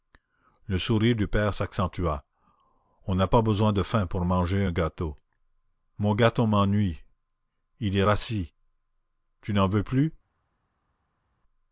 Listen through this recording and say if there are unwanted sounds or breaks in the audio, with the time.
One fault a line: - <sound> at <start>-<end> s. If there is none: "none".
none